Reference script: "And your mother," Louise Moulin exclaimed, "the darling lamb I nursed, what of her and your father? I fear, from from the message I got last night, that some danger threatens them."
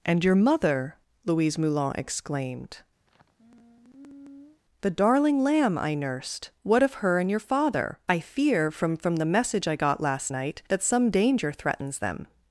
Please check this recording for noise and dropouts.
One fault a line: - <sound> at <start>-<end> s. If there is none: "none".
- sigh at 3.1-4.6 s